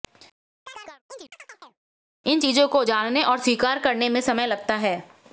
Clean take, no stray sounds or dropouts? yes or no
no